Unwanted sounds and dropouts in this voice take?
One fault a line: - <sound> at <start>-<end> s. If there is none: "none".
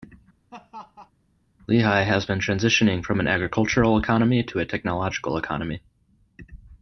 - laugh at 0.5-1.1 s